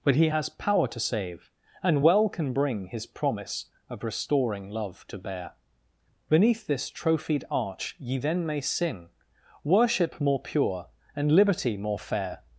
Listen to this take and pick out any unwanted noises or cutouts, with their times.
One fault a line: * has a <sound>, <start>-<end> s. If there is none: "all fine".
all fine